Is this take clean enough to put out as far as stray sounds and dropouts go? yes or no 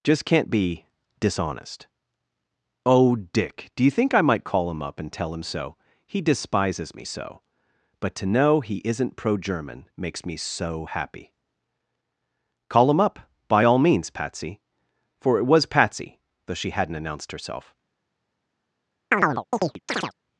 no